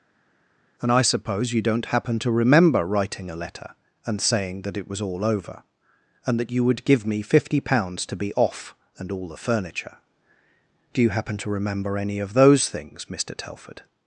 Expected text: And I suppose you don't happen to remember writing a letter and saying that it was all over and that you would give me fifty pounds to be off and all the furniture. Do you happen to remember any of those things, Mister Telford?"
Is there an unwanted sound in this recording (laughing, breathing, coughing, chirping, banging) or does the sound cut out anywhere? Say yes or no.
no